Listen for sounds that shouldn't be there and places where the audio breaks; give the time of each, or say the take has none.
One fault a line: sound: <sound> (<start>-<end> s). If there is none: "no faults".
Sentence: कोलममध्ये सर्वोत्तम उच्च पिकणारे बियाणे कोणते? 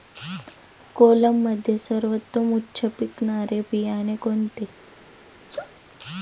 sound: sneeze (5.5-5.7 s)